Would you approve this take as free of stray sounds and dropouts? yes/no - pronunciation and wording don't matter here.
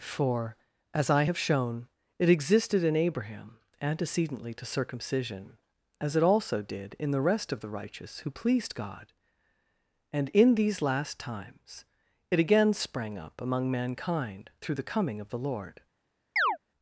no